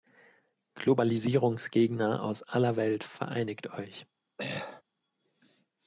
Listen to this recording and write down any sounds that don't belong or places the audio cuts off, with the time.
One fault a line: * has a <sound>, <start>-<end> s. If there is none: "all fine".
* has a throat clearing, 4.4-4.8 s